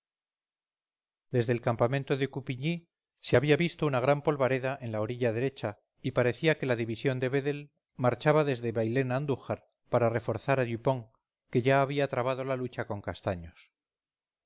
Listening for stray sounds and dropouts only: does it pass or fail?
pass